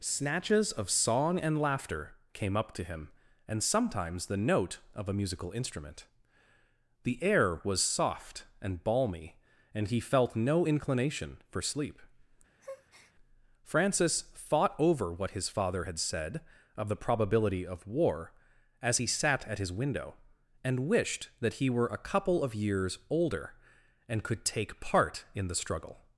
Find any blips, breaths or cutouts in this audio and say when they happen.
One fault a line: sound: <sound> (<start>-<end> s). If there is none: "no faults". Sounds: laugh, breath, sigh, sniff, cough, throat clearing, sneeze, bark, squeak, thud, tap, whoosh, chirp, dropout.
sound: breath (12.6-13.1 s)